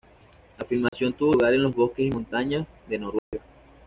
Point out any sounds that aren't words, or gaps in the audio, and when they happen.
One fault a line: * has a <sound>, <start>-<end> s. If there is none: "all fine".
* has a dropout, 0.9-0.9 s
* has a dropout, 3.2-3.3 s